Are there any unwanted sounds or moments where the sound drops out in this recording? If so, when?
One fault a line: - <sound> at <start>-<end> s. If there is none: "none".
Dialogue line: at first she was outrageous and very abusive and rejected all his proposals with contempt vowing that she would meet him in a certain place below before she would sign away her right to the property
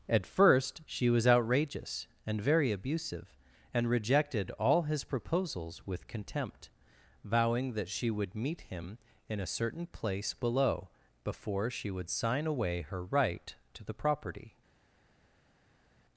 none